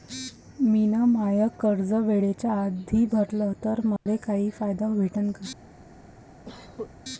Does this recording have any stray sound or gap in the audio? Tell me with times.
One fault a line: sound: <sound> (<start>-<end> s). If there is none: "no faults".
sound: dropout (4.0-4.1 s)
sound: cough (6.4-6.9 s)